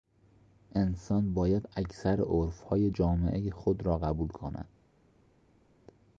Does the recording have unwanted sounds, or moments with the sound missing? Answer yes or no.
no